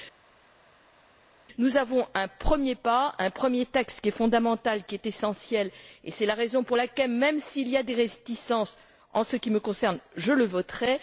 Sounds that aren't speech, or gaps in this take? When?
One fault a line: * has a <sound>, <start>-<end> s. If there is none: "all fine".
all fine